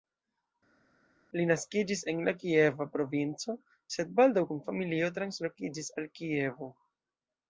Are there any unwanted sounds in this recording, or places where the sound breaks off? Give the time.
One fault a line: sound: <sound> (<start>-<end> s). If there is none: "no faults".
no faults